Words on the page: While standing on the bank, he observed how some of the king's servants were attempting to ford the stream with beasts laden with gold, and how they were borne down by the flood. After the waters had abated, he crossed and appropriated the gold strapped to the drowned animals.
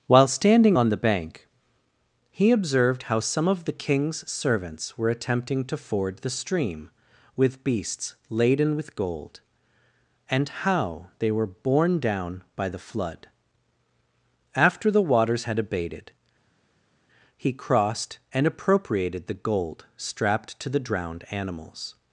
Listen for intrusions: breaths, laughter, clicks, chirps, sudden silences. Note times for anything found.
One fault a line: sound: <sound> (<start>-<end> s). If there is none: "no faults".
no faults